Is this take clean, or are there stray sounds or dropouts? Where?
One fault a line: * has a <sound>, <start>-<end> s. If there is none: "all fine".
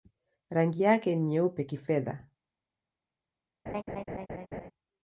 * has a laugh, 3.7-4.7 s